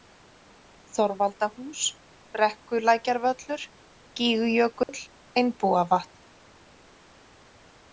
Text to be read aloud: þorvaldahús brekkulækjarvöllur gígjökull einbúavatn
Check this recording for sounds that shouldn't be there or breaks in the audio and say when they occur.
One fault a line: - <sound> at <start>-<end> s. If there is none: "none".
- dropout at 4.8-4.9 s